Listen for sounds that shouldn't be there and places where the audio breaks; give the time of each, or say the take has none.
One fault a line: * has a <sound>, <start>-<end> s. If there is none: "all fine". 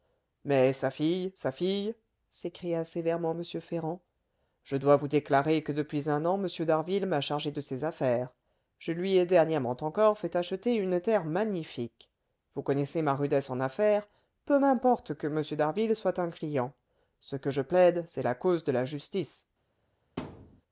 * has a thud, 20.2-20.6 s